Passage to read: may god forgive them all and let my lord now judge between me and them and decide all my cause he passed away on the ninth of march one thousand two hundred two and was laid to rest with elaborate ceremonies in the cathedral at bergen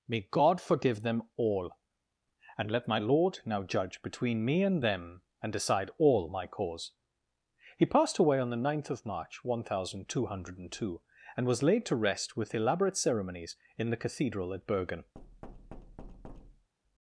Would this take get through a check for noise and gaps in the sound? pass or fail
fail